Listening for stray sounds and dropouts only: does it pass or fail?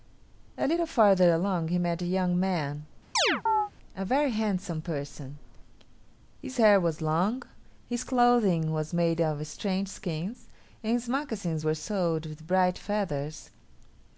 fail